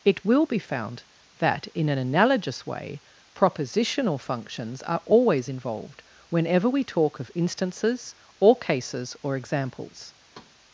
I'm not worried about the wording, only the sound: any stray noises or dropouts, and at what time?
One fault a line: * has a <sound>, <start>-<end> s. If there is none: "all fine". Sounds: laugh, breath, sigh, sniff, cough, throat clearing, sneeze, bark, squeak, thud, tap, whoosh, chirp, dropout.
* has a thud, 10.3-10.6 s